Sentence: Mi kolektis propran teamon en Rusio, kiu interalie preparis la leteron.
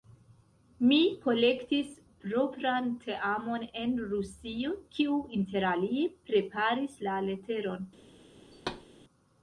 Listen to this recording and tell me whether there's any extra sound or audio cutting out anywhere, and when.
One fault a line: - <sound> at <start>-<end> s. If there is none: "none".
- thud at 8.5-8.9 s